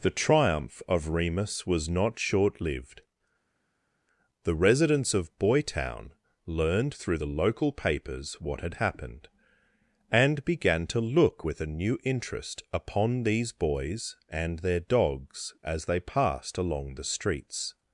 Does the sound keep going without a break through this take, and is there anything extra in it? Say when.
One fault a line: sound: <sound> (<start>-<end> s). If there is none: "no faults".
no faults